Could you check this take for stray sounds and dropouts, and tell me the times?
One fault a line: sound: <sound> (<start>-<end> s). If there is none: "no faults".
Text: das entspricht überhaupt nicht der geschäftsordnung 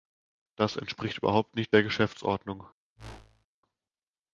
sound: whoosh (3.0-3.5 s)